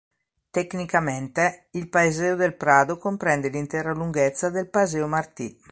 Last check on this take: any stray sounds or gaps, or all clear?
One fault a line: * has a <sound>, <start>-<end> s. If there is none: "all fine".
all fine